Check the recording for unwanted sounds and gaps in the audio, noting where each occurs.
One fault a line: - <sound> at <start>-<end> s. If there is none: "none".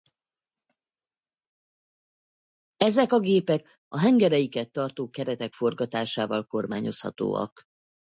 none